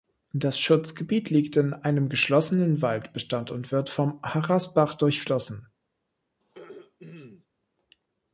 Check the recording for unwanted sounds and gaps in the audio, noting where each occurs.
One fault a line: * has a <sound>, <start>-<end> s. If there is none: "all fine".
* has a throat clearing, 6.4-7.5 s